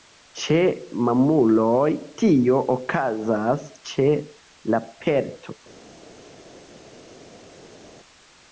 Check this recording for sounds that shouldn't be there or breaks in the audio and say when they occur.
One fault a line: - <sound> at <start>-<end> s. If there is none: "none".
none